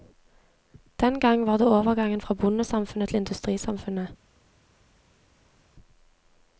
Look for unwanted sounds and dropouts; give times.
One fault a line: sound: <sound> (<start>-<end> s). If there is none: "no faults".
no faults